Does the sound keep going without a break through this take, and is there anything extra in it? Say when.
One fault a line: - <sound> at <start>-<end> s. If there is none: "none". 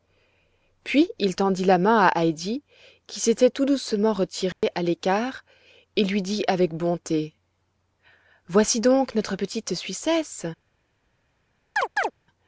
- dropout at 4.5-4.6 s
- chirp at 11.8-12.1 s